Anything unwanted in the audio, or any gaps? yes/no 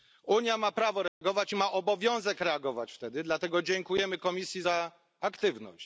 yes